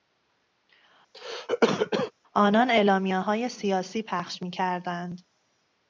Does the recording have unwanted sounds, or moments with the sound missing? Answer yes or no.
yes